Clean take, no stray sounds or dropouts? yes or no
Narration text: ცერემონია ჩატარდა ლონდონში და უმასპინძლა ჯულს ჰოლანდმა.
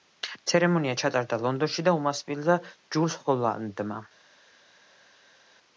yes